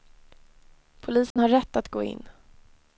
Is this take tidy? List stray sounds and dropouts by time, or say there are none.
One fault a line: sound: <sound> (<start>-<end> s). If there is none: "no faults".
sound: dropout (1.3-1.4 s)